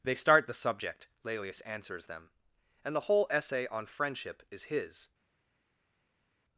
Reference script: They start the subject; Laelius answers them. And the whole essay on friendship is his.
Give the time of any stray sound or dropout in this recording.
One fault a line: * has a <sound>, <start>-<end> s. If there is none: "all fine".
all fine